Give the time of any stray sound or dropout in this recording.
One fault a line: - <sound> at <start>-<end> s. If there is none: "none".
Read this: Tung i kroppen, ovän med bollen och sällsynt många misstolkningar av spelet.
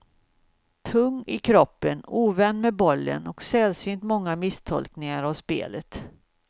none